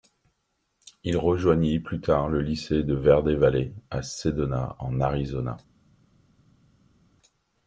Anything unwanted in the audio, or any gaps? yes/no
no